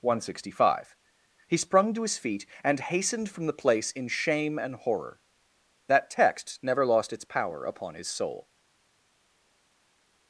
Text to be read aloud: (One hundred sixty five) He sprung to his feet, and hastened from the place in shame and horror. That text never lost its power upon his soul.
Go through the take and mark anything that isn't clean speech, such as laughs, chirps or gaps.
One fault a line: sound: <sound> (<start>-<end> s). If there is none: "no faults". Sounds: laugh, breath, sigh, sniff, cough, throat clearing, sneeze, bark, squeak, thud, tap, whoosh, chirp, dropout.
no faults